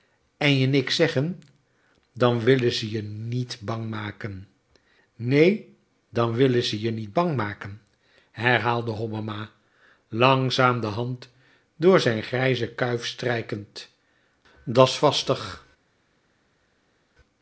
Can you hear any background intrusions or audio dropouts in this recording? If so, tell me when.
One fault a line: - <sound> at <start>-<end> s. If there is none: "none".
none